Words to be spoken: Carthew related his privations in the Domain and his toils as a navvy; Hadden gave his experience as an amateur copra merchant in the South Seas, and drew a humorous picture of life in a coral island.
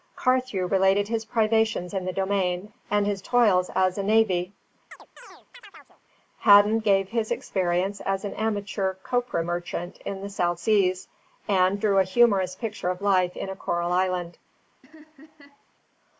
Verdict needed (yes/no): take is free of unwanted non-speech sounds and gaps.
no